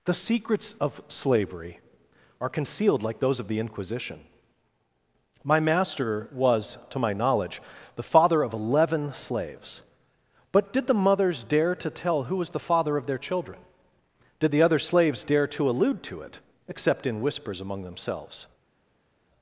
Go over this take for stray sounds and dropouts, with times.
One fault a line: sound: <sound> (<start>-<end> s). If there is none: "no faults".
no faults